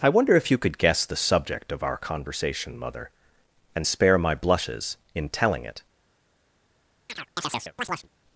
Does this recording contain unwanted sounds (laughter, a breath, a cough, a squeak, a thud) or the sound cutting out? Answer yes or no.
yes